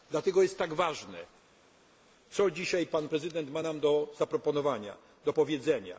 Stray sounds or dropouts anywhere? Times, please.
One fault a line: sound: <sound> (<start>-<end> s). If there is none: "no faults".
no faults